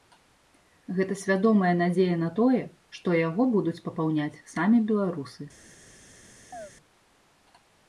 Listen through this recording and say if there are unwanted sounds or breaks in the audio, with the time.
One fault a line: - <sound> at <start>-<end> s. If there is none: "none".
- chirp at 6.5-6.7 s